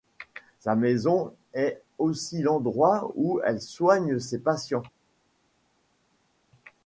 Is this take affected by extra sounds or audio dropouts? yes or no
no